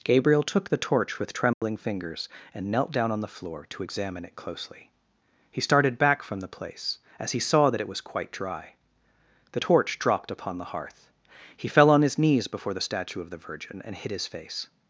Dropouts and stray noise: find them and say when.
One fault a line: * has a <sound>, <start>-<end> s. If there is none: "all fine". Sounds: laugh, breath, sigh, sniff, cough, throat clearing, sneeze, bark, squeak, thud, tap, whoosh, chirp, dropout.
* has a dropout, 1.5-1.6 s